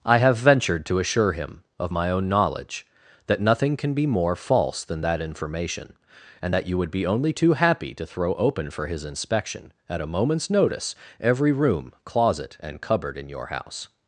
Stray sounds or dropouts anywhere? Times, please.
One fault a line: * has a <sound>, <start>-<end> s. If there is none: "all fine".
all fine